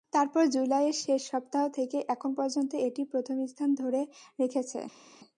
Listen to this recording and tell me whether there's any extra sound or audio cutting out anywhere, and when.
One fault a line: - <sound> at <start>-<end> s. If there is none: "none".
none